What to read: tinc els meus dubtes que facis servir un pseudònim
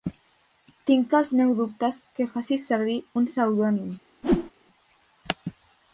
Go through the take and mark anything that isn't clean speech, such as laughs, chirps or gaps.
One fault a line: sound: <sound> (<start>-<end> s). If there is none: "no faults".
sound: whoosh (4.2-4.5 s)